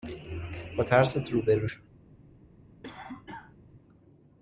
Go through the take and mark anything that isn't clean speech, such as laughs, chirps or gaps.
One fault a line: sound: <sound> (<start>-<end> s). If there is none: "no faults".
sound: cough (2.8-3.6 s)